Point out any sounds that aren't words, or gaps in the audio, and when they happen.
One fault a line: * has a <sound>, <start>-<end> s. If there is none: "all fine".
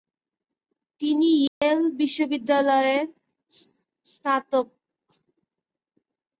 * has a dropout, 1.5-1.6 s